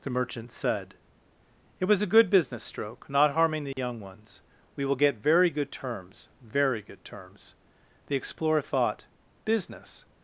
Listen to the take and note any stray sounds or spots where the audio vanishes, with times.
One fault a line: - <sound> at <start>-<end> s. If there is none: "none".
- dropout at 3.7-3.8 s